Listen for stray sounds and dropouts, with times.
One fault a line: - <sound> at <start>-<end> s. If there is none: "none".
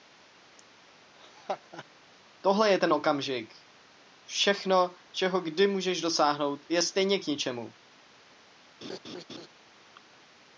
- laugh at 1.2-1.9 s
- laugh at 8.8-9.5 s